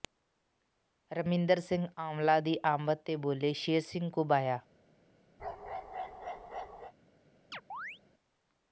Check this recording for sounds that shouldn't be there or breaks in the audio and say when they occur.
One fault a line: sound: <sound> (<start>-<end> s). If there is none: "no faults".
sound: bark (5.4-6.9 s)
sound: chirp (7.5-8.0 s)